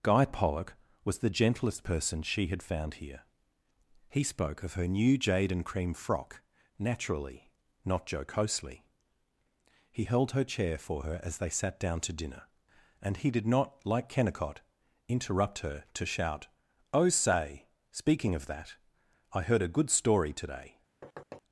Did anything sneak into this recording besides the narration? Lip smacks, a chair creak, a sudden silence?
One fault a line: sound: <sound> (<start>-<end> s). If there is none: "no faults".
sound: thud (21.0-21.4 s)